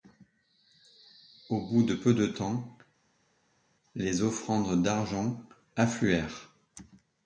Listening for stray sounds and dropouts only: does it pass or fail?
pass